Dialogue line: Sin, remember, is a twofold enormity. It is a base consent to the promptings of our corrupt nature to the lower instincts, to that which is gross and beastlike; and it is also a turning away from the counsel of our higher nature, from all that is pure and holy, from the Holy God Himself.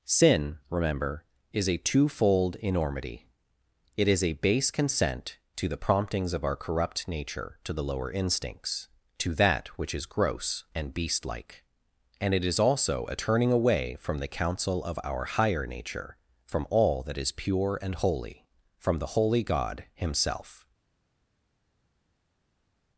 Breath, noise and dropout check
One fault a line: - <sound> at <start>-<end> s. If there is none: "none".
none